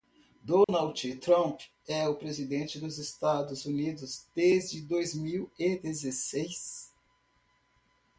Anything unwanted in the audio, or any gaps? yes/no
yes